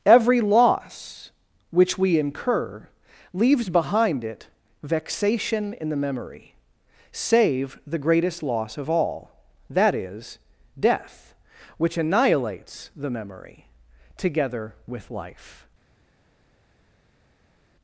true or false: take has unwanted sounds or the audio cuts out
false